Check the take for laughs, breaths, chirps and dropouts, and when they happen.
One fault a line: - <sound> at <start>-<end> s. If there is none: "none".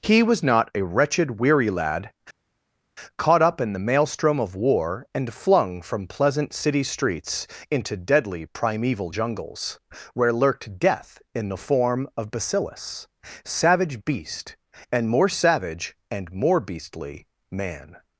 none